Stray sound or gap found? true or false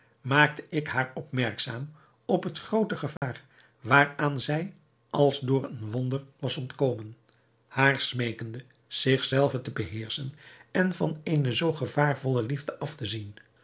true